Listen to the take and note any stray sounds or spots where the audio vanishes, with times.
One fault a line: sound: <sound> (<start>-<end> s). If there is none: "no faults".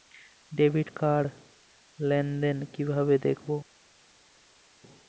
no faults